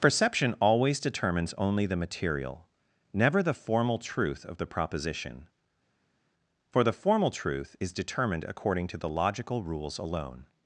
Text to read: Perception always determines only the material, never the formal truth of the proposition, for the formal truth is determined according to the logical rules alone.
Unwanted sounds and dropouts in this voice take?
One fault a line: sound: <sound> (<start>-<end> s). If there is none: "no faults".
no faults